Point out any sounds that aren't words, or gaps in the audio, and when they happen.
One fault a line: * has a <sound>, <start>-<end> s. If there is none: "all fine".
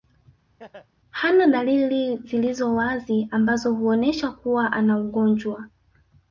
* has a laugh, 0.6-0.9 s